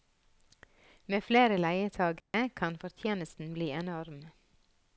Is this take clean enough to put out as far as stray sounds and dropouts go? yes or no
no